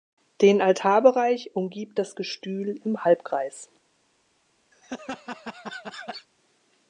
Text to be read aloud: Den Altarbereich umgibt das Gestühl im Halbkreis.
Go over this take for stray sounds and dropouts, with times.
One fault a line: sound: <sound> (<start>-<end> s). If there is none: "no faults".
sound: laugh (4.7-6.3 s)